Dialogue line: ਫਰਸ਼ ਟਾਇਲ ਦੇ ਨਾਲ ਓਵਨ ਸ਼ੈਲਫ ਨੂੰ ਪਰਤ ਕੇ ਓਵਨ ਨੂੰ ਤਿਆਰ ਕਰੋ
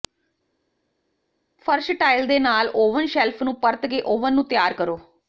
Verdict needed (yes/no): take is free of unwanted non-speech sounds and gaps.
yes